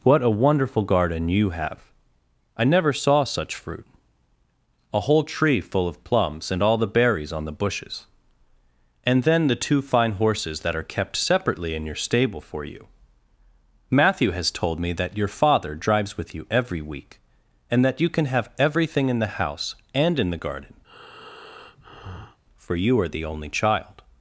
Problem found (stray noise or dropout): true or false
true